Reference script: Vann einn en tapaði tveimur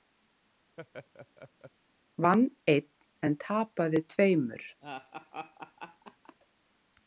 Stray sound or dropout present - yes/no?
yes